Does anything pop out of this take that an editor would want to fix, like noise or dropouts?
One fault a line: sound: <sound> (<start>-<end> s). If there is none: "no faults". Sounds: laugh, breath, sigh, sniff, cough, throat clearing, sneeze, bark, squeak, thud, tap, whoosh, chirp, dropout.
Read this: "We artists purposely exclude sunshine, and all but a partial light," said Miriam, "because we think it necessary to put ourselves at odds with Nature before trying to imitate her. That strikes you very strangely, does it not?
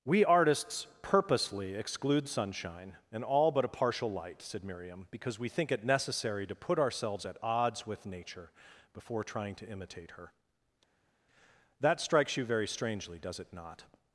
no faults